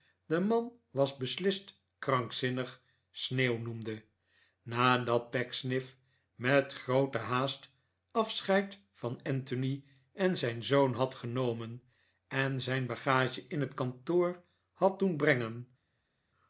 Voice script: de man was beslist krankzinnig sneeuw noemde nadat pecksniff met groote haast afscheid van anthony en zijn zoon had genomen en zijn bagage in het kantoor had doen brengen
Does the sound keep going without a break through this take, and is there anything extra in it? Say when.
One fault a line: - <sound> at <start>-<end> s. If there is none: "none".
none